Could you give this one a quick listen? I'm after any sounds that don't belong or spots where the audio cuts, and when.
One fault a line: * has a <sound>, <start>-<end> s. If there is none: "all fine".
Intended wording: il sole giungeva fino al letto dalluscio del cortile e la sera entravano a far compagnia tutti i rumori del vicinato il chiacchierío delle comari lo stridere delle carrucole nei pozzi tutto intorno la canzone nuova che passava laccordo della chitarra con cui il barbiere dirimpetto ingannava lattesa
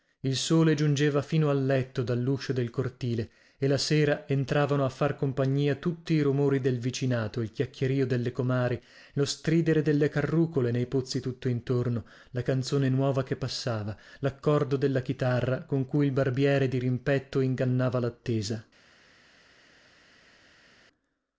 all fine